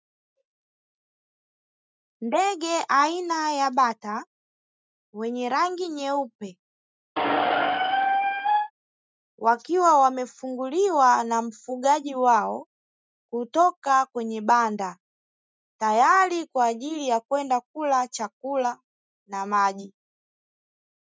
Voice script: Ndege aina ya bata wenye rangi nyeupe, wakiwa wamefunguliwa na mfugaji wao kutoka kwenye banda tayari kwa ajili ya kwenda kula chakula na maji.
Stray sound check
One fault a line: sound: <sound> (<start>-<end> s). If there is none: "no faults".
sound: squeak (7.2-8.7 s)